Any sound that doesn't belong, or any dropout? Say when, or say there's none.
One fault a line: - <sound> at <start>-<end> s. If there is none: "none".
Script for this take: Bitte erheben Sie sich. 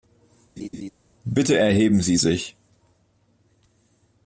- laugh at 0.6-0.9 s